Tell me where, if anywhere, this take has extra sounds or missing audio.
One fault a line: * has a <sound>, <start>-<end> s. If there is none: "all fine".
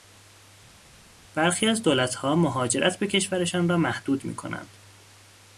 all fine